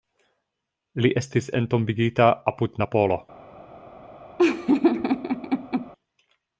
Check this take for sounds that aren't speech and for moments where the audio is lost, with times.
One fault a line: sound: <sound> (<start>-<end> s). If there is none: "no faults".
sound: laugh (4.4-5.9 s)